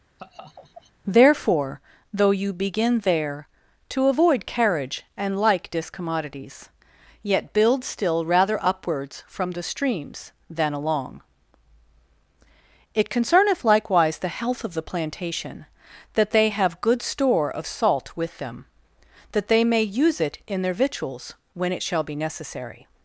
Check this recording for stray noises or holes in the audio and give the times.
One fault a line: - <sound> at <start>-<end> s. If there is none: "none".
- laugh at 0.2-0.9 s